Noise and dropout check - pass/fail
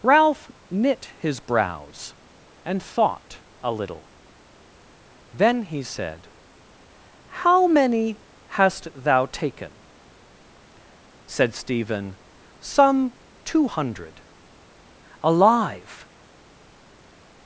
pass